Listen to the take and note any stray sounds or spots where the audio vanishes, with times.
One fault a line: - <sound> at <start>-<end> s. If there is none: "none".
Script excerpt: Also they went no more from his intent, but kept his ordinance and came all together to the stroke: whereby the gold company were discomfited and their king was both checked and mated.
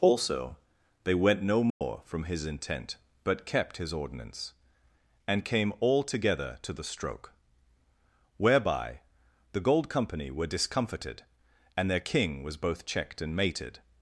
- dropout at 1.7-1.8 s